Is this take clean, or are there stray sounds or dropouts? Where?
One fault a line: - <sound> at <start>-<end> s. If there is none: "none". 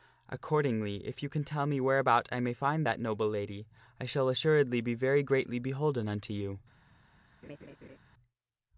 - laugh at 7.4-8.0 s